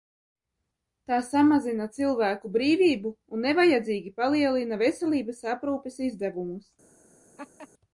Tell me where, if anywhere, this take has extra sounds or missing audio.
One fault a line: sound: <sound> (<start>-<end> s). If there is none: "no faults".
sound: laugh (7.4-7.7 s)